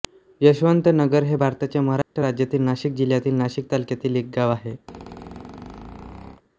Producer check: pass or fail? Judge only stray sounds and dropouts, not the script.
fail